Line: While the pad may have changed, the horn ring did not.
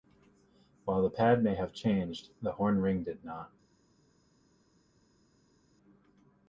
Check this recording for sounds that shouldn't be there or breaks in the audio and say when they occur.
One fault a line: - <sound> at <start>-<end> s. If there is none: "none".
none